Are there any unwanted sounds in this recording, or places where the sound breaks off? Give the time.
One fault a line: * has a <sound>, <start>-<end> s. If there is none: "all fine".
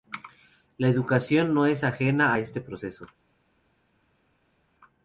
all fine